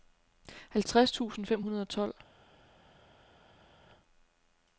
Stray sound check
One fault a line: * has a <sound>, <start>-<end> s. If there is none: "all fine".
all fine